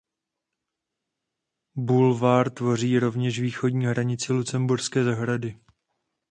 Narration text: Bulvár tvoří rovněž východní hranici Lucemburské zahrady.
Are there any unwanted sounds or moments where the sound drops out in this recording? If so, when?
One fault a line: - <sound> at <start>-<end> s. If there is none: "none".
none